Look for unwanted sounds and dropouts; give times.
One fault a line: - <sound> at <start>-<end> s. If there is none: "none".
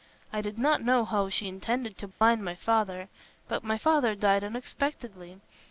- dropout at 2.1-2.2 s